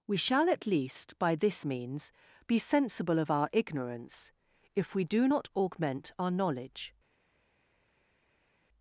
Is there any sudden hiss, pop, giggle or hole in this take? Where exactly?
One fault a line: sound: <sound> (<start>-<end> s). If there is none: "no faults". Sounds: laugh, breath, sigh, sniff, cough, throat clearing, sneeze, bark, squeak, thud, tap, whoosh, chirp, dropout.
no faults